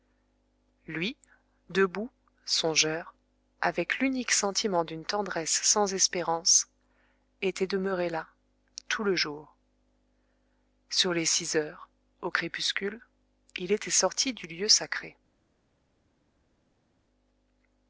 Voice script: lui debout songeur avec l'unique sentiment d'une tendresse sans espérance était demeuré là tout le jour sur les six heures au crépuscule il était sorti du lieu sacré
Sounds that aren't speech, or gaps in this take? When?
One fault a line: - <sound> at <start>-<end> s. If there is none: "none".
none